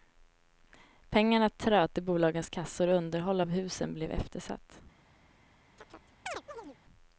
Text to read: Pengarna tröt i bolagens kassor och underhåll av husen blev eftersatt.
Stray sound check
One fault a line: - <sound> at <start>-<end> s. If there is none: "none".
- chirp at 5.8-6.8 s